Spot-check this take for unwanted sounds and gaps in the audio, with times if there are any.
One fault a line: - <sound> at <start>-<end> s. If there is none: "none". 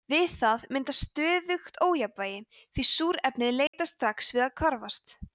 - dropout at 3.7-3.7 s